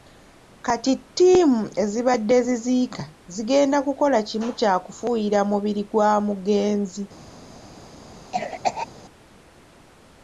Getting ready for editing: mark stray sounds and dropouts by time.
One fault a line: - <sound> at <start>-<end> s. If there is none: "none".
- cough at 8.3-8.9 s